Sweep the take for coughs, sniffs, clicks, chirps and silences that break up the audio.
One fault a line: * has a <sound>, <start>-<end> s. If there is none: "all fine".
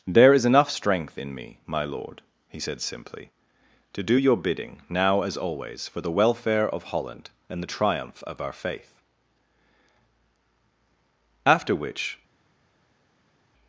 all fine